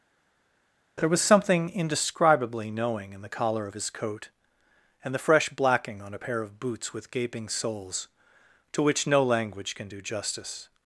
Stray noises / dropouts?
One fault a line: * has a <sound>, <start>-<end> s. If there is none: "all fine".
all fine